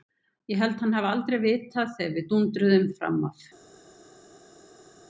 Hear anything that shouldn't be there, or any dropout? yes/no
no